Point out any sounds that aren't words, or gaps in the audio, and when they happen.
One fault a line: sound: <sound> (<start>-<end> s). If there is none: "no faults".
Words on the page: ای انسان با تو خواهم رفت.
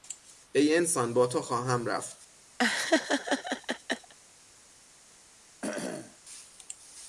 sound: laugh (2.6-4.1 s)
sound: cough (5.6-6.2 s)